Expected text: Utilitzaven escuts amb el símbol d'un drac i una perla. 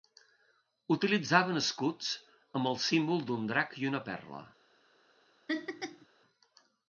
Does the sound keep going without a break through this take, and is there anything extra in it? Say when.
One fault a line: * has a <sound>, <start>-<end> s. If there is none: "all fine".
* has a laugh, 5.5-6.1 s